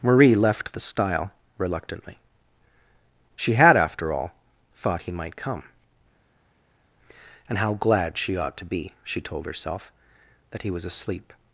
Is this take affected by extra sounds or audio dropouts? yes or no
no